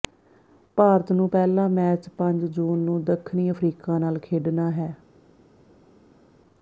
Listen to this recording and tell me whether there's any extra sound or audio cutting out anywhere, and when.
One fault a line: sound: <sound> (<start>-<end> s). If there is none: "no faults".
no faults